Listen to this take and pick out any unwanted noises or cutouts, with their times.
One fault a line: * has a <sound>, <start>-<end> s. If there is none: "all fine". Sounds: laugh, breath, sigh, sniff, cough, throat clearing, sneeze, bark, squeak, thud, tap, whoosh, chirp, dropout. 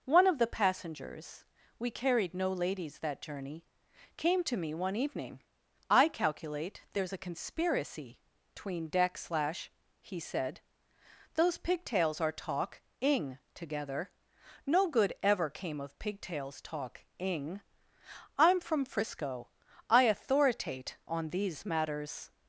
all fine